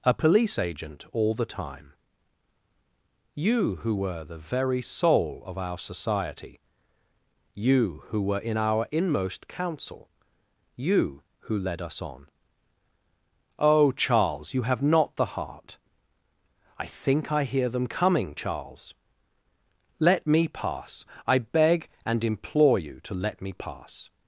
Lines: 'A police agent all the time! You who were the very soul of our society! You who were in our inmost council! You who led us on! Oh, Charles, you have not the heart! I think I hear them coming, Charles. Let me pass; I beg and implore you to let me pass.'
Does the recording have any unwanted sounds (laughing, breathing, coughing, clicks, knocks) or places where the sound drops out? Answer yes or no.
no